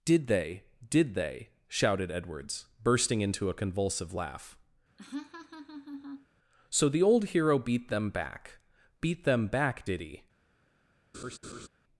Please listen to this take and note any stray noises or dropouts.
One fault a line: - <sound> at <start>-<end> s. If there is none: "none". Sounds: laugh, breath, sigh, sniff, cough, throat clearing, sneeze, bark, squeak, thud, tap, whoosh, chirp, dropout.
- laugh at 5.0-6.3 s
- laugh at 11.1-11.7 s